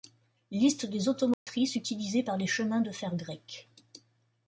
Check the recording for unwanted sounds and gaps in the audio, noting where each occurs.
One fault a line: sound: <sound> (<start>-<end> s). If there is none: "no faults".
sound: dropout (1.3-1.5 s)